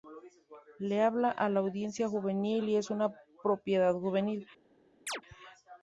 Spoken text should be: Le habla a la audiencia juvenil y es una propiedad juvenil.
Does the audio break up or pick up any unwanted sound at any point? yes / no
yes